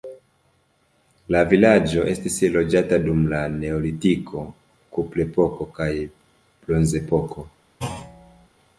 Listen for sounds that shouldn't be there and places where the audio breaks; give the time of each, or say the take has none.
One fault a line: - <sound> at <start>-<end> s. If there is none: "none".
- thud at 7.8-8.5 s